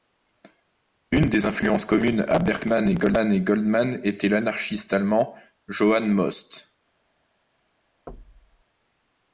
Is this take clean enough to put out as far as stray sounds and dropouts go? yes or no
no